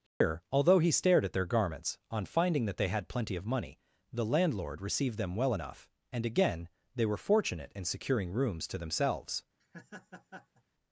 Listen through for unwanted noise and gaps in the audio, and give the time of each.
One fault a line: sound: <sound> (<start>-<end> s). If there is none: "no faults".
sound: dropout (0.1-0.2 s)
sound: laugh (9.6-10.6 s)